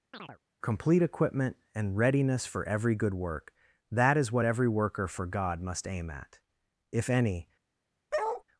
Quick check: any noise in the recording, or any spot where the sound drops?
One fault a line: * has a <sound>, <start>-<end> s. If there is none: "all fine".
* has a chirp, 0.1-0.4 s
* has a bark, 8.1-8.4 s